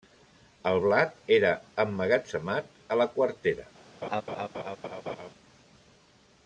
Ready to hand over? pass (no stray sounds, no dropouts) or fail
fail